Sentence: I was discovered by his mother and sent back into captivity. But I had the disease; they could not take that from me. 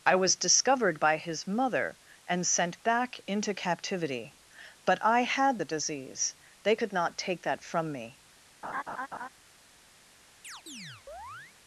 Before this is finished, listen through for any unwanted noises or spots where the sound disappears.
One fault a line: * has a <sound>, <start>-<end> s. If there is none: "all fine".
* has a laugh, 8.6-9.3 s
* has a chirp, 10.4-11.6 s